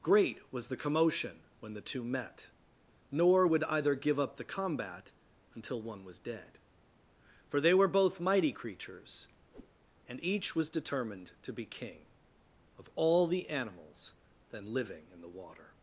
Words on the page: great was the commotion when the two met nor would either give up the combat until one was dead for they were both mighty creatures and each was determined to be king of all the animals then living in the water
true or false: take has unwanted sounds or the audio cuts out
true